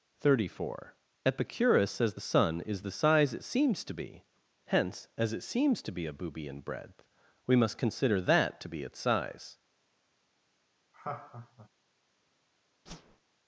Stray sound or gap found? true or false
true